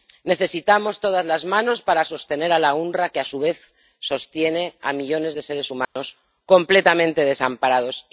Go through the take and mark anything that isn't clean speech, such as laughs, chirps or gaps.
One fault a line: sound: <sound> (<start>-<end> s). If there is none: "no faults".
sound: dropout (5.8-6.0 s)